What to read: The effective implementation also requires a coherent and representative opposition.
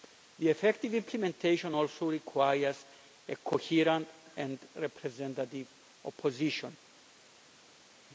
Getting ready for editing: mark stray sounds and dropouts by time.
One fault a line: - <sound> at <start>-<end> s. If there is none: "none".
none